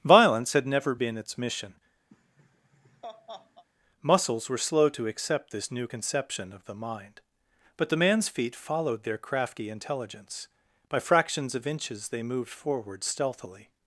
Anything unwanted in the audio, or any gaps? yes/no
yes